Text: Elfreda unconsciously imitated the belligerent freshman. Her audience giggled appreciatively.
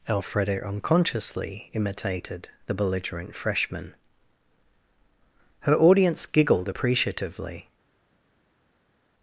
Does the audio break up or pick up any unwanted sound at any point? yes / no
no